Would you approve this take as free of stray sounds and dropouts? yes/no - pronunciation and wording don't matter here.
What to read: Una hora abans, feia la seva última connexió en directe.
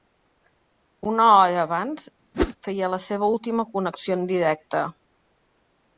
no